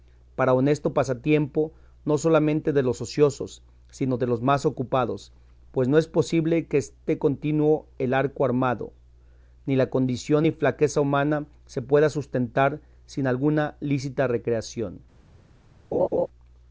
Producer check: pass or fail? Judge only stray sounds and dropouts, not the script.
fail